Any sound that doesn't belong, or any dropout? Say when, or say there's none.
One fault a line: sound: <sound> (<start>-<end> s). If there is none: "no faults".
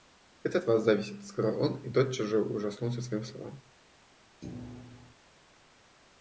sound: thud (4.4-5.1 s)